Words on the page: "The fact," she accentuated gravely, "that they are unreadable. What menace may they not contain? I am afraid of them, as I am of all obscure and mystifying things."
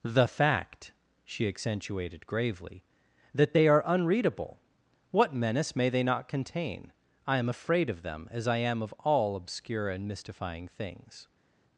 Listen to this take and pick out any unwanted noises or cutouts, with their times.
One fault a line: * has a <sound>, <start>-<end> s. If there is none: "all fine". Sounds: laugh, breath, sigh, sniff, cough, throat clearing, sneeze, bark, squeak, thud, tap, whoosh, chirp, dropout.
all fine